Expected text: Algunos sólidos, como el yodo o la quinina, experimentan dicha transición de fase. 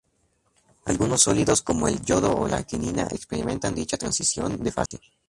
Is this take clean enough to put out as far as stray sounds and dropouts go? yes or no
no